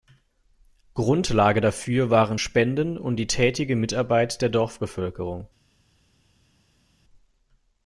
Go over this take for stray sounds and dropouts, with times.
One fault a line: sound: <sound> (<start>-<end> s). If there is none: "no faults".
no faults